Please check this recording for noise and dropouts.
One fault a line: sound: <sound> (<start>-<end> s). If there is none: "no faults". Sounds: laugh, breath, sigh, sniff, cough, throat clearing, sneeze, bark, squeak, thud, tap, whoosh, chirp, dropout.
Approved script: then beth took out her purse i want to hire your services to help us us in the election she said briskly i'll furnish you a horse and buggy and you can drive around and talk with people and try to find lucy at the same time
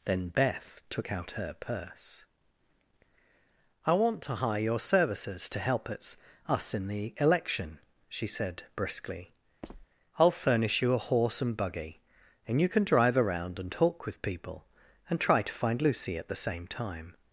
sound: squeak (9.6-9.9 s)